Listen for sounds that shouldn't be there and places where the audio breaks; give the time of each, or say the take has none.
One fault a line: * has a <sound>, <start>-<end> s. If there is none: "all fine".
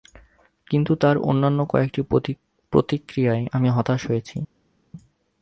all fine